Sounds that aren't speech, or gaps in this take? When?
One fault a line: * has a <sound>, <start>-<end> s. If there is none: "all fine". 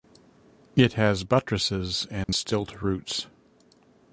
* has a dropout, 2.2-2.3 s